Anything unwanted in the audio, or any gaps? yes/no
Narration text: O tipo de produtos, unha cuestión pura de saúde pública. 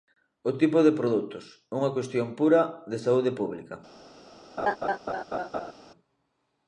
yes